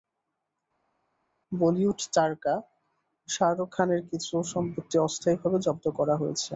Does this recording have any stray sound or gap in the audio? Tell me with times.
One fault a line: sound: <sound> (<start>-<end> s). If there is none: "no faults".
no faults